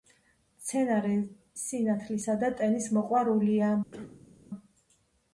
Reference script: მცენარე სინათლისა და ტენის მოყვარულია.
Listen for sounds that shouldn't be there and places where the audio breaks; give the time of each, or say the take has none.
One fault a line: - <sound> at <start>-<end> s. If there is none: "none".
- cough at 3.9-4.3 s